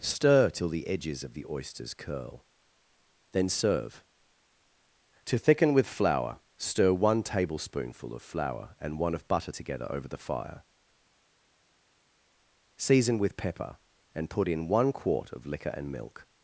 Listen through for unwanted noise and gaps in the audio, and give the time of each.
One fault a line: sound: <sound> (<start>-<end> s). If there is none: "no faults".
no faults